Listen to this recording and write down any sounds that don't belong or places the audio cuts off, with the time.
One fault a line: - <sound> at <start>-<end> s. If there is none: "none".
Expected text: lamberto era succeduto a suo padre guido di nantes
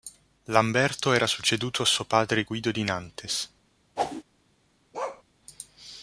- whoosh at 4.0-4.2 s
- bark at 4.9-5.2 s